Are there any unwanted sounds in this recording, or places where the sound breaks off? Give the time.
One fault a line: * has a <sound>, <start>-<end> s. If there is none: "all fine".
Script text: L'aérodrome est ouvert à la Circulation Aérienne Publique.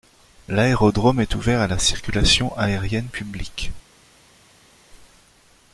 all fine